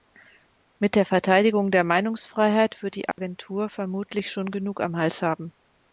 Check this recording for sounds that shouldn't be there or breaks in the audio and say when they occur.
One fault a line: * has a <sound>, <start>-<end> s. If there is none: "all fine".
* has a dropout, 3.1-3.2 s